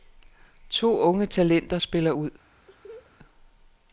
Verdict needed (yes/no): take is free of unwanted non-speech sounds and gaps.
no